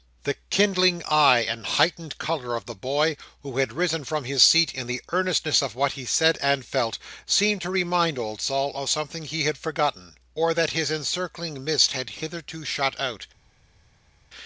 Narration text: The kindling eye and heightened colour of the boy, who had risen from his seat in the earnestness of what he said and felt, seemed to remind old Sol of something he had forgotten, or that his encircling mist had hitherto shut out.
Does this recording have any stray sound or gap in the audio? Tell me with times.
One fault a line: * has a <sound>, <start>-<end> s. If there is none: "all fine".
all fine